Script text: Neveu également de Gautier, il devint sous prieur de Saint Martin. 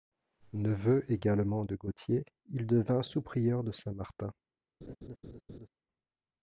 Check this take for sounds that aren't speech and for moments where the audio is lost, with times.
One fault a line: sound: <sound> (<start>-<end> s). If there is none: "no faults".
sound: laugh (4.8-5.7 s)